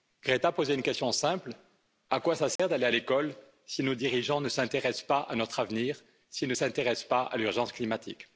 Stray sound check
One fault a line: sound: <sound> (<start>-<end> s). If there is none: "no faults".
sound: dropout (2.6-2.6 s)